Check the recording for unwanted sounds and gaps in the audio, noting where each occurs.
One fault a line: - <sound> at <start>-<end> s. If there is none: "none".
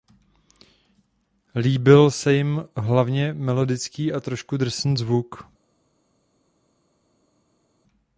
none